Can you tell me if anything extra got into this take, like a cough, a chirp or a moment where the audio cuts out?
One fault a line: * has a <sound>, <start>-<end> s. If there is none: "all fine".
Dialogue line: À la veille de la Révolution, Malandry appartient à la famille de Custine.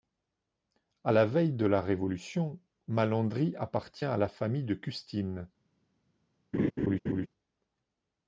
* has a laugh, 6.5-7.3 s